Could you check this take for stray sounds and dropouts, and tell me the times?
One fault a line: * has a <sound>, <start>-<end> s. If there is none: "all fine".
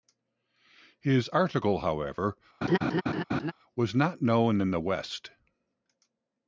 * has a laugh, 2.6-3.5 s